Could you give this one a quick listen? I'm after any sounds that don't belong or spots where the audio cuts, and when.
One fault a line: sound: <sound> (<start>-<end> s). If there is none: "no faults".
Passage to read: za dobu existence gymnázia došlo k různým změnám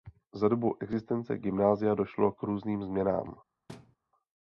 sound: thud (3.7-4.0 s)